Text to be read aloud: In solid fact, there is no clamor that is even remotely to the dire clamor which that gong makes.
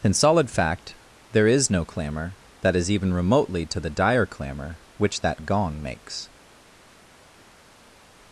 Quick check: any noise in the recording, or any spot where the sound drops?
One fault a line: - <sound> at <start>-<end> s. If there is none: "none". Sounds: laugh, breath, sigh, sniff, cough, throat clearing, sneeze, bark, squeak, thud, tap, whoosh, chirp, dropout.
none